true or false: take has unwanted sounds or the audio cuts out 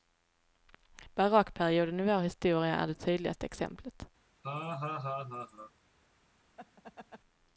true